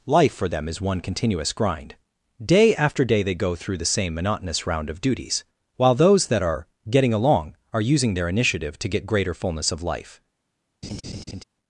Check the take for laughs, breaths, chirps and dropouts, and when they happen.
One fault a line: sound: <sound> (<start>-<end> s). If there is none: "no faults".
sound: laugh (10.8-11.4 s)